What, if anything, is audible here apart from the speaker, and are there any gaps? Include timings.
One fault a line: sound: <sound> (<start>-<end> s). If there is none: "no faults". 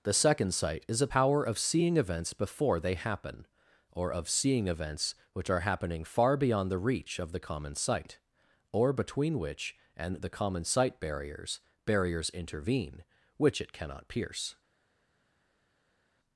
no faults